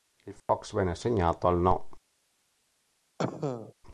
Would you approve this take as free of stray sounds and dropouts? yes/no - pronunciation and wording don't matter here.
no